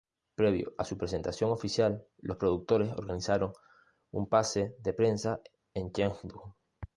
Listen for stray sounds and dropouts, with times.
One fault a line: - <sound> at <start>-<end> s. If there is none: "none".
none